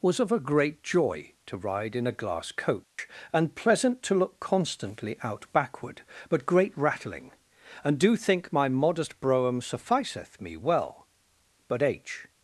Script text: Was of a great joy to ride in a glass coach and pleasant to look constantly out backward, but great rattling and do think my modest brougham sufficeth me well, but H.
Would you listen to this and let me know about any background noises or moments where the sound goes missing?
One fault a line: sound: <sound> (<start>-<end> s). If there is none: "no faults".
sound: dropout (2.8-3.0 s)